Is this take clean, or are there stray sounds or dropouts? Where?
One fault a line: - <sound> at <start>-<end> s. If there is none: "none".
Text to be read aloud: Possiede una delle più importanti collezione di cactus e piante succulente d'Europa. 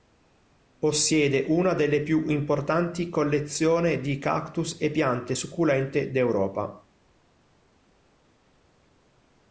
none